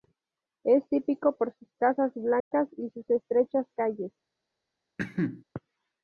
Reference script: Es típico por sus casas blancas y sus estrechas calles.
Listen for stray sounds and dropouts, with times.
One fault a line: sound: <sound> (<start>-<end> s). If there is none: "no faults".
sound: dropout (2.4-2.5 s)
sound: cough (5.0-5.4 s)